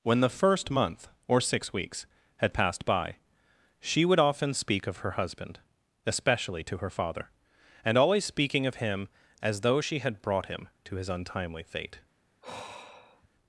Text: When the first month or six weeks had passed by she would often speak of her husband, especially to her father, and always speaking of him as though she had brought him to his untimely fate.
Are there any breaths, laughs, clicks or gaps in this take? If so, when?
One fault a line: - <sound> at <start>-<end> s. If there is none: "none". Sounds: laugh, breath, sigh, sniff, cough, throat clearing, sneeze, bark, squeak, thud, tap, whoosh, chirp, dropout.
- sigh at 12.4-13.3 s